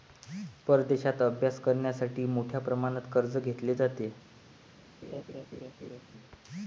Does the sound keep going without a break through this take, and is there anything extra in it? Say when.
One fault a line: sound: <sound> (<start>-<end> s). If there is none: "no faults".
sound: laugh (5.0-6.0 s)